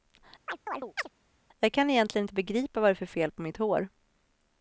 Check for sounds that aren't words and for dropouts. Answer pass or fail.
fail